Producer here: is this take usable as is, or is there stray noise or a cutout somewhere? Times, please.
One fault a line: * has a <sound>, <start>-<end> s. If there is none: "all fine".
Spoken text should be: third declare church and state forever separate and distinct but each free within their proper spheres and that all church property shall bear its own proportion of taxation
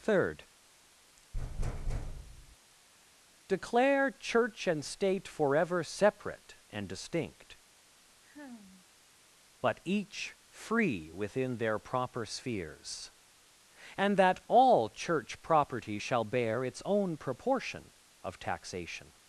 * has a thud, 1.3-2.6 s
* has a sigh, 8.2-8.9 s